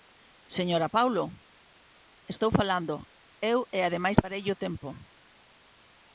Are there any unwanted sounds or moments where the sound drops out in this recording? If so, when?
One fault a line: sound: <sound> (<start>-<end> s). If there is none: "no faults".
no faults